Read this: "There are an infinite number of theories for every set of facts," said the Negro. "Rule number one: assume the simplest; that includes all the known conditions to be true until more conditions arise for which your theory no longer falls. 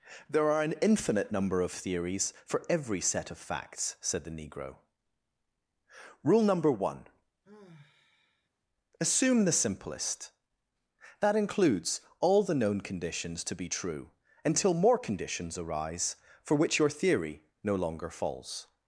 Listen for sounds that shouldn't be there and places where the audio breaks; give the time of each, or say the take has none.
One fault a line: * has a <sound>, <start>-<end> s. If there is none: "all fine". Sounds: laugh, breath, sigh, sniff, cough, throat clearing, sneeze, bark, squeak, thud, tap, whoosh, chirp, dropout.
* has a sigh, 7.4-8.5 s